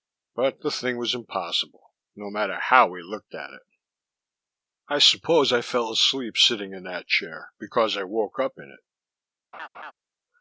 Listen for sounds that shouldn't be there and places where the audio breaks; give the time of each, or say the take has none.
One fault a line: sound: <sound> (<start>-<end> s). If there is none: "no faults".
sound: laugh (9.5-9.9 s)